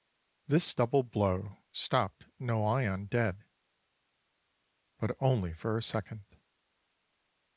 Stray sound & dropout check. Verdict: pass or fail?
pass